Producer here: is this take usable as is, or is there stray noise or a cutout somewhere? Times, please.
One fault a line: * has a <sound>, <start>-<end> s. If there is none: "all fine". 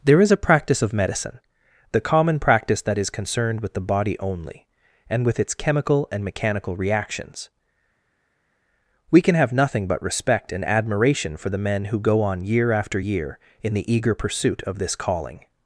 all fine